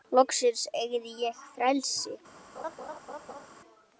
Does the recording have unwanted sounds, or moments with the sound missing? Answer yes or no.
yes